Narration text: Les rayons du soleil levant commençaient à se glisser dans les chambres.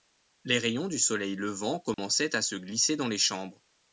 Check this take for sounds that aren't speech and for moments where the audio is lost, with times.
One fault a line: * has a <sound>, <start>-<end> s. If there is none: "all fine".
* has a dropout, 1.9-2.0 s